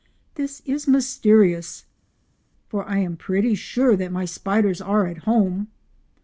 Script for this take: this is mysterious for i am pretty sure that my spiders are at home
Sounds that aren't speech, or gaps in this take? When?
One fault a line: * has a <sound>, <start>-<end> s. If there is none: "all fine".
all fine